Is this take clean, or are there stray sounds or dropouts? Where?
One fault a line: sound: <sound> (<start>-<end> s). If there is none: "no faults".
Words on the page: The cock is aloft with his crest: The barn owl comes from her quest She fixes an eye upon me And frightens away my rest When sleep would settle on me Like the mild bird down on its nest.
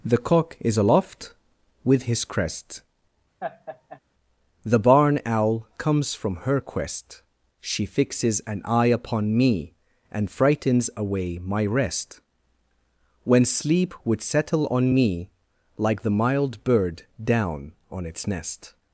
sound: laugh (3.4-4.0 s)